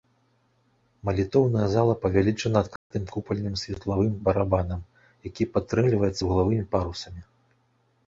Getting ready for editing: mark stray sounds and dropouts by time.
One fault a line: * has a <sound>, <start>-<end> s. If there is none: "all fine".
* has a dropout, 2.8-2.9 s